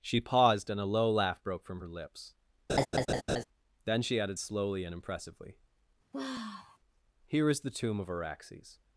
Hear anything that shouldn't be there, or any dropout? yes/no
yes